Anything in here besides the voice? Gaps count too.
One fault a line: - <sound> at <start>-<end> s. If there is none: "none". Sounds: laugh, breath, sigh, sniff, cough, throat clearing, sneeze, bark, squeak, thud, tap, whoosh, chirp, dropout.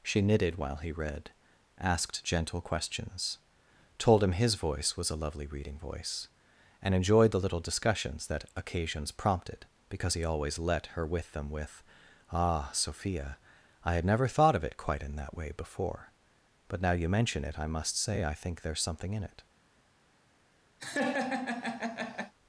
- laugh at 20.8-22.3 s